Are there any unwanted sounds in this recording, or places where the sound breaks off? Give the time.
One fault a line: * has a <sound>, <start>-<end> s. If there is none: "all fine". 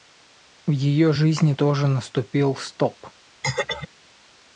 * has a throat clearing, 3.4-3.9 s